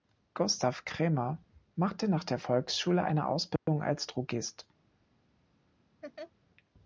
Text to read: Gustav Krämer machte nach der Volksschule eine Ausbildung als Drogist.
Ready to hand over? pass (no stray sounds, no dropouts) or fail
fail